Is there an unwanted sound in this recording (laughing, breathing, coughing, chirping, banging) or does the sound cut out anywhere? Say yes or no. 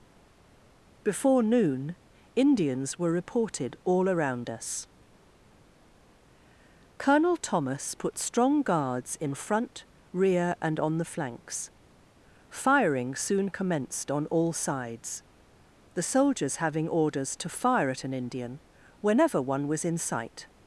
no